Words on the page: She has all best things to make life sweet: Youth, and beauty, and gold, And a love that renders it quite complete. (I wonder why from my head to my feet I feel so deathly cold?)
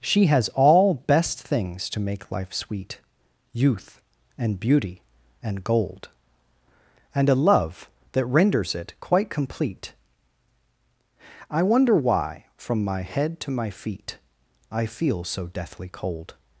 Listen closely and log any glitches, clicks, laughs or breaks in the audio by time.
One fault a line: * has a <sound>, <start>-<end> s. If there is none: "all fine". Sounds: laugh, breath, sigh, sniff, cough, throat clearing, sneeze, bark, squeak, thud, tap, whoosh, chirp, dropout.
all fine